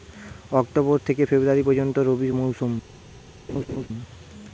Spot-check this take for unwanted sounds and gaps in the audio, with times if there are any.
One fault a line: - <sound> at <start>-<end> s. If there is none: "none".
- laugh at 3.5-3.9 s